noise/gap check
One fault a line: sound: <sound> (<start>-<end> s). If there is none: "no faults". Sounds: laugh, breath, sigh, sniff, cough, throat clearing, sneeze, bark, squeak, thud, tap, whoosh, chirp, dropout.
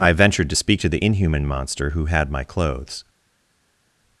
no faults